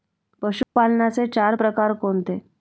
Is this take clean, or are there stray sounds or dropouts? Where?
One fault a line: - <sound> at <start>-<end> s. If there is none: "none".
- dropout at 0.6-0.8 s